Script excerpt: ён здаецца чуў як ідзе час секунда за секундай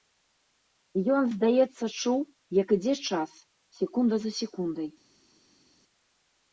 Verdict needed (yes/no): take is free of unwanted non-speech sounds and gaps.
yes